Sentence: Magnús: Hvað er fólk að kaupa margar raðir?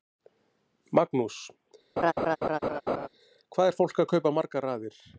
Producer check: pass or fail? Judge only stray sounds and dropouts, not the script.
fail